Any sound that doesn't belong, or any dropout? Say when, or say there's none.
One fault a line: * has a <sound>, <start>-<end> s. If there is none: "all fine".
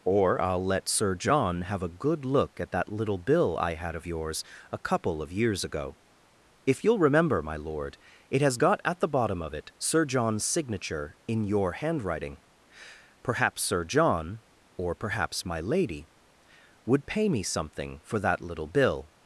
all fine